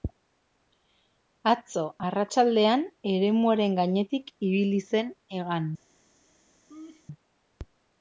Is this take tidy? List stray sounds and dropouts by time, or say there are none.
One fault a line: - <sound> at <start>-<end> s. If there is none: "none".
- laugh at 6.7-7.0 s